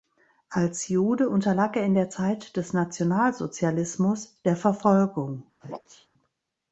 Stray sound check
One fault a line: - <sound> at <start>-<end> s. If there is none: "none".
- sneeze at 5.6-6.1 s